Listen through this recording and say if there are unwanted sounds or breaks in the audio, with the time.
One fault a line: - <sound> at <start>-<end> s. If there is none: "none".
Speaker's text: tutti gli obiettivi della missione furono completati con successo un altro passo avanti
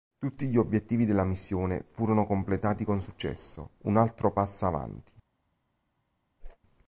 - whoosh at 6.4-6.6 s